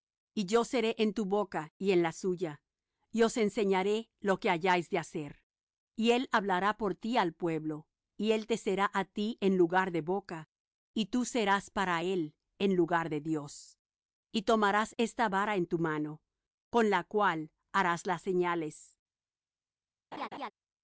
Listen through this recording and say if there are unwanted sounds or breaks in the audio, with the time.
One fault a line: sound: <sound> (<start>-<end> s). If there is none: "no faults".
sound: laugh (20.1-20.5 s)